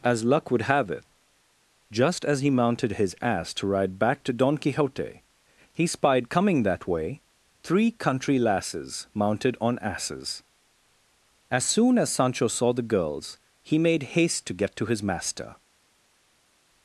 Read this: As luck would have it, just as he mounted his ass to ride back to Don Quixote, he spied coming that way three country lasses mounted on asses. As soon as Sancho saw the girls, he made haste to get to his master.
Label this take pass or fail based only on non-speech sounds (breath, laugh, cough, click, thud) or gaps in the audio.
pass